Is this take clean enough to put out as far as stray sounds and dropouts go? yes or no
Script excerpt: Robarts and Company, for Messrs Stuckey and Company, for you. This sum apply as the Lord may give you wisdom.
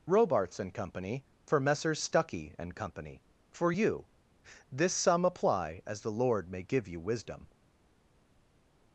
yes